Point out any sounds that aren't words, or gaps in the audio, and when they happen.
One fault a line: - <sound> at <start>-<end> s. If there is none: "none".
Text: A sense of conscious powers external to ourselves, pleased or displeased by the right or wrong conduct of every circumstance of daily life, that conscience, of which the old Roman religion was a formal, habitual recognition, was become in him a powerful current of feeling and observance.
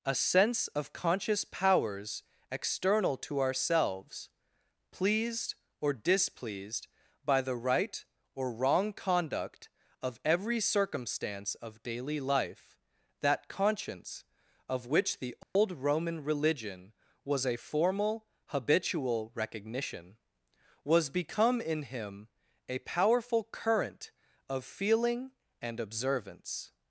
- dropout at 15.4-15.6 s